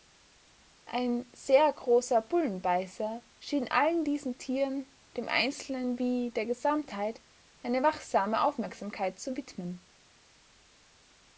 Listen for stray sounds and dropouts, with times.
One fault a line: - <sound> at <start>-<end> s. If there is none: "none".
none